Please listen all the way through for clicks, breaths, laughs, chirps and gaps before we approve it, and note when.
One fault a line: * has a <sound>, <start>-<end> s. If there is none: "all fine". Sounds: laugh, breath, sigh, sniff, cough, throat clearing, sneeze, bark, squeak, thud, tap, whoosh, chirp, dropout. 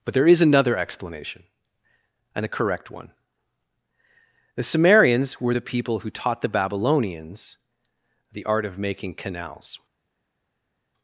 all fine